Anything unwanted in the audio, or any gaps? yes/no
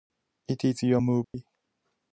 yes